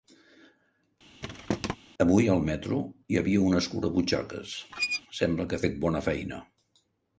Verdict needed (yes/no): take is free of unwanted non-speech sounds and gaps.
no